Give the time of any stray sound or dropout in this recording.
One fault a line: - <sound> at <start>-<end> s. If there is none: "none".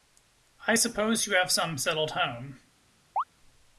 - chirp at 3.2-3.2 s